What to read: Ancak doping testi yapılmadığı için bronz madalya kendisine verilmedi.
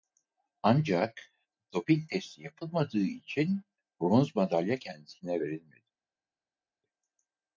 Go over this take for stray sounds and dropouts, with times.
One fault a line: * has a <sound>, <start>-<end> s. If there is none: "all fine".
all fine